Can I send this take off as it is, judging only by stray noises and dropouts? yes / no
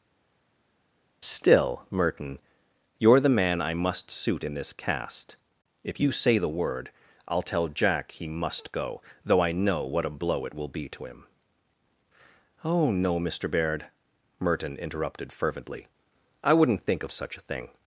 yes